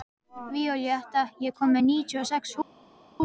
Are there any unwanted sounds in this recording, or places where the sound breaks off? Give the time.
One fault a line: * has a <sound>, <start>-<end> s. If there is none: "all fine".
all fine